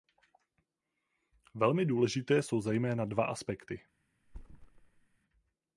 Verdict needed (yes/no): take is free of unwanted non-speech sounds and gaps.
no